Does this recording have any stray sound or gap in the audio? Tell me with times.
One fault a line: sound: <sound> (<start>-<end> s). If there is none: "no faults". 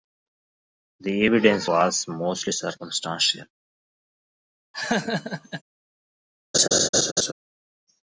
sound: laugh (4.7-5.6 s)
sound: laugh (6.5-7.3 s)